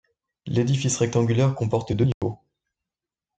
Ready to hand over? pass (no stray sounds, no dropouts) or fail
fail